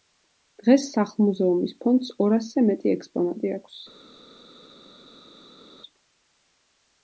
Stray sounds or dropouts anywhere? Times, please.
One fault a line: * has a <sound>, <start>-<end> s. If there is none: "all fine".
all fine